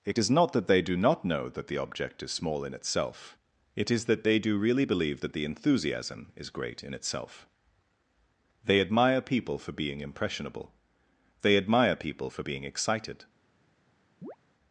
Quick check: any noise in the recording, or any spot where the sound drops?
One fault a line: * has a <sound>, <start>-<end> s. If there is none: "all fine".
* has a chirp, 14.2-14.4 s